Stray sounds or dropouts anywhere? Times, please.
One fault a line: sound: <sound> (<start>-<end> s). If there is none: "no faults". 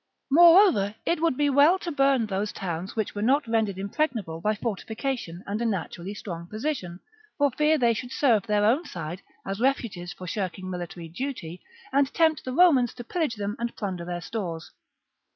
no faults